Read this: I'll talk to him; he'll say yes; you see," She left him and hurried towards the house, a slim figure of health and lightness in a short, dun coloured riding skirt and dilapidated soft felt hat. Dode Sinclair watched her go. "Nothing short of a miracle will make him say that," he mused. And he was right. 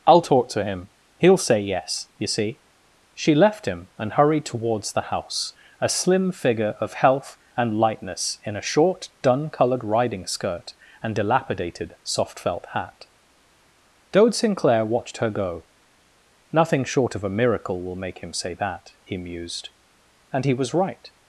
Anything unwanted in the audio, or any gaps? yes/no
no